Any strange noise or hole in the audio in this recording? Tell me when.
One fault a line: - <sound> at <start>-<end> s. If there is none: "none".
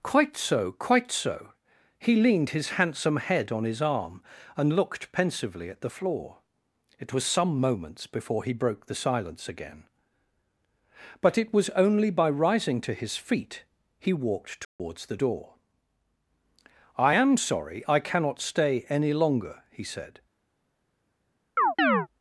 - dropout at 14.6-14.8 s
- chirp at 21.6-22.1 s